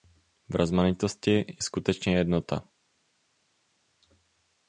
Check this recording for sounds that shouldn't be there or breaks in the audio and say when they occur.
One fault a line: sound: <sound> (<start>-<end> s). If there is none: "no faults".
no faults